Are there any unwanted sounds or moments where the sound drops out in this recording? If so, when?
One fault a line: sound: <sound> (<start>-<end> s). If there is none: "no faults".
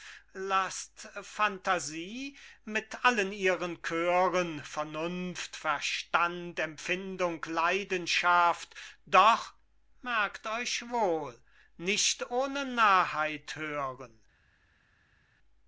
no faults